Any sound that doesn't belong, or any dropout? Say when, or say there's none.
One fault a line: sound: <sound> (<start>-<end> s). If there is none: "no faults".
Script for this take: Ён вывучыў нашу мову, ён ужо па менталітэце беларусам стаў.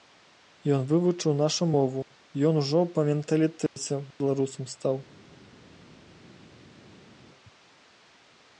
no faults